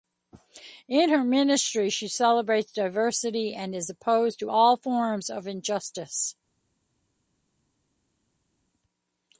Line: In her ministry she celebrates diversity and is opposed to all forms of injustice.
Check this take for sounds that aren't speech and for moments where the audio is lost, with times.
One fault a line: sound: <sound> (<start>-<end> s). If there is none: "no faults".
no faults